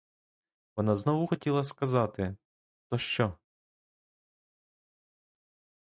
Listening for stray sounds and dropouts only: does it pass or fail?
pass